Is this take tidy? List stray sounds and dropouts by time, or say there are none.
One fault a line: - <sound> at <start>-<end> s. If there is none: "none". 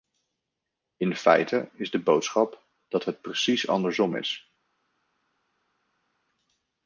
none